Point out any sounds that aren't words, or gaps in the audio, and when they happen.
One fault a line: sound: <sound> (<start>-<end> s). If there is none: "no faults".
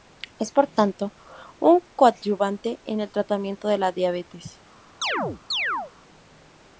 sound: chirp (5.0-5.9 s)